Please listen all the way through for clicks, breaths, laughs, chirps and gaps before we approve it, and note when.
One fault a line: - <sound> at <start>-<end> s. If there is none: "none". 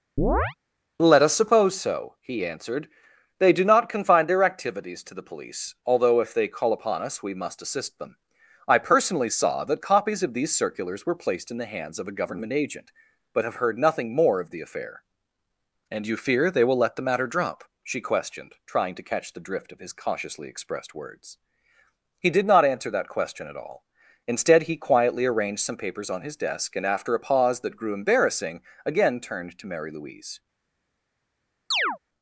- chirp at 0.2-0.5 s
- chirp at 31.7-32.0 s